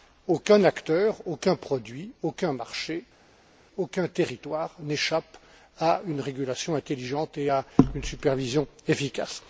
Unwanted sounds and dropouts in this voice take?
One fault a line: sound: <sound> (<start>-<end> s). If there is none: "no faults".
no faults